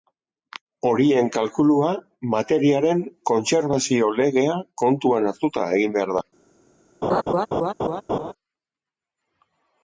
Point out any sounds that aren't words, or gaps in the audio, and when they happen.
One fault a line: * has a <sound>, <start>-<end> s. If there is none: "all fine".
* has a laugh, 7.0-8.3 s